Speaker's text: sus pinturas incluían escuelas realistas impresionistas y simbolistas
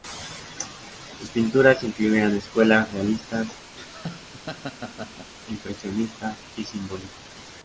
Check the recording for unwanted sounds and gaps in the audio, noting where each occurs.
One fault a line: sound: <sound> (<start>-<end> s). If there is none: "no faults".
sound: laugh (3.8-5.3 s)